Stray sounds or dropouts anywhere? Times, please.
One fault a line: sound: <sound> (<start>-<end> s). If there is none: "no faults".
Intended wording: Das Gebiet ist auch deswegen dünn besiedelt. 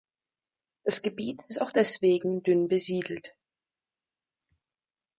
no faults